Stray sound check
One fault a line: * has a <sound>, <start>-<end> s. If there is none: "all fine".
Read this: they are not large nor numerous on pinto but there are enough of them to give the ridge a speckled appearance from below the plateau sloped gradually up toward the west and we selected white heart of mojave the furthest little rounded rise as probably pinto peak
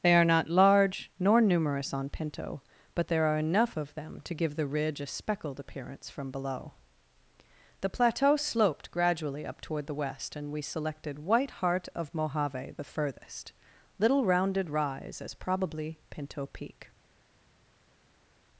all fine